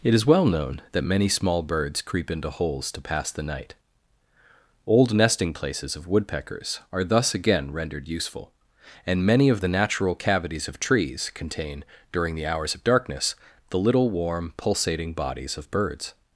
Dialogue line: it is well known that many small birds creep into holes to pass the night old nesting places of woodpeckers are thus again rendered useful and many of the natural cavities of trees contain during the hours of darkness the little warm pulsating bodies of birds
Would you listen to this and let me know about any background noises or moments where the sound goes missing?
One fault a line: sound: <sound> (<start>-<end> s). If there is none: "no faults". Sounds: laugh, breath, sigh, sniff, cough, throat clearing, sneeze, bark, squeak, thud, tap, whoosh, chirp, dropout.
no faults